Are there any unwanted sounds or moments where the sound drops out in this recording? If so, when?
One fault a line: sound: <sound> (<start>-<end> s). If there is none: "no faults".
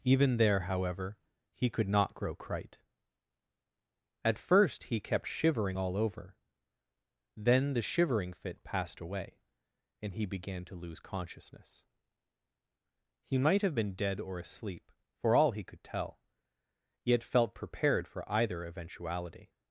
no faults